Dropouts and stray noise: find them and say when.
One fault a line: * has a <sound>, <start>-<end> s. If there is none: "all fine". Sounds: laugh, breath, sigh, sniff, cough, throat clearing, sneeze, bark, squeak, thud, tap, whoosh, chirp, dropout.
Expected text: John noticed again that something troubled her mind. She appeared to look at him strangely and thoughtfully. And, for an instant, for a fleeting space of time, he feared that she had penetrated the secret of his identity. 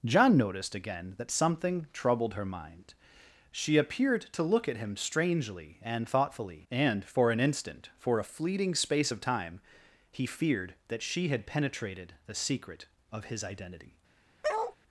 * has a bark, 14.4-14.8 s